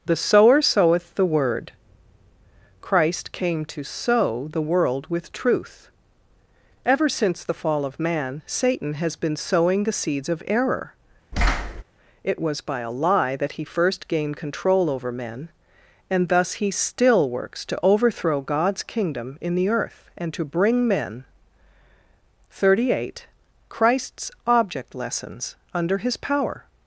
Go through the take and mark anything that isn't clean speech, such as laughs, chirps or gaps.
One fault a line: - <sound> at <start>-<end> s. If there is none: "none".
- thud at 11.3-11.8 s